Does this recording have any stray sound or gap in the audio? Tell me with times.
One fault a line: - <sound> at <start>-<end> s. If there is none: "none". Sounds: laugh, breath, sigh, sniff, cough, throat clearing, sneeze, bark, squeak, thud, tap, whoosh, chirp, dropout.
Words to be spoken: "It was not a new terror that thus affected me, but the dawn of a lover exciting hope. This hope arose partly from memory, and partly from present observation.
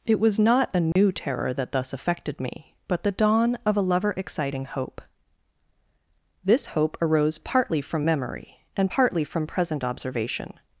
- dropout at 0.9-1.0 s